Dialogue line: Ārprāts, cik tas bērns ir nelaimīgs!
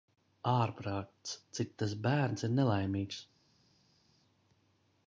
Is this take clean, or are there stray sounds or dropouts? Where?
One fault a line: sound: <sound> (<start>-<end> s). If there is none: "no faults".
no faults